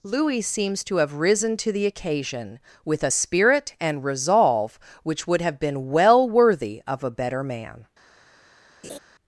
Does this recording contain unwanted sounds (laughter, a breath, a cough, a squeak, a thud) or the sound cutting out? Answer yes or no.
yes